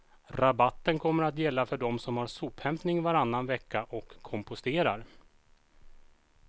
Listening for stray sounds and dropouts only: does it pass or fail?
pass